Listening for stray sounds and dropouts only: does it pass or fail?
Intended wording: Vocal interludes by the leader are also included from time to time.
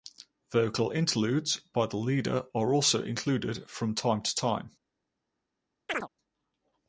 fail